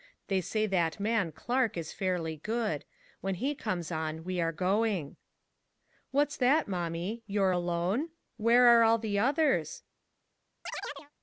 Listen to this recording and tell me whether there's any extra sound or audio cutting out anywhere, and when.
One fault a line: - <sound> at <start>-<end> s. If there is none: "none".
- chirp at 10.7-11.1 s